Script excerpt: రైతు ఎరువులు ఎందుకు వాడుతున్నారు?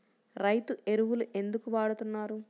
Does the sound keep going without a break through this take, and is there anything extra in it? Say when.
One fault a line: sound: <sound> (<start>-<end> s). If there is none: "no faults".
no faults